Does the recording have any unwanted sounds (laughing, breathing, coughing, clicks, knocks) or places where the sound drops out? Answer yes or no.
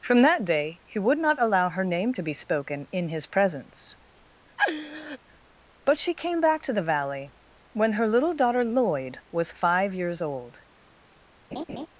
yes